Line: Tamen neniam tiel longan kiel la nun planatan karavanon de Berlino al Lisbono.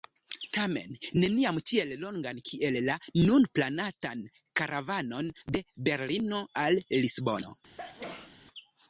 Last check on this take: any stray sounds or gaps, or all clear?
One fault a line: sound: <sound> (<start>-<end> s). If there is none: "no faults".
sound: sneeze (7.8-8.4 s)